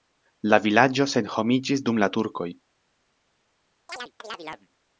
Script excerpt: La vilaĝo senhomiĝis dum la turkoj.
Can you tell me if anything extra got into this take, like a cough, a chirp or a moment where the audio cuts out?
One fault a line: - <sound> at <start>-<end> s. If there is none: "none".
- chirp at 3.9-4.7 s